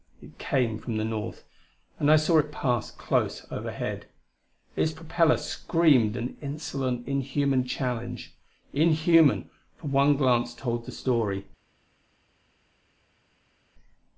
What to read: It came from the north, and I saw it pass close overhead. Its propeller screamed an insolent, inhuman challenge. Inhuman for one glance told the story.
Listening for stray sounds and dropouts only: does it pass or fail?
pass